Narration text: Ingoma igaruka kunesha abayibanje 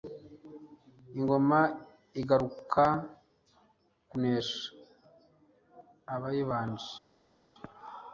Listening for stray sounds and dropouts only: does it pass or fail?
pass